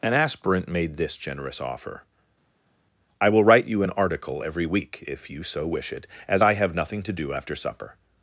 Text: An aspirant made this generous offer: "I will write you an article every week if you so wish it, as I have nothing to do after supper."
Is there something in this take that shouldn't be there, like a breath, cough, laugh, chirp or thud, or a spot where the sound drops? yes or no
no